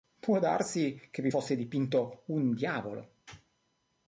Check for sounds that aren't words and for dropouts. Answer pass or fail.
pass